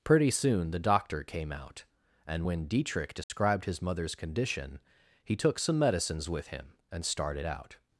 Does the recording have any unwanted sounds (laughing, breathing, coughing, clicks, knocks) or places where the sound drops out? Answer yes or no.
yes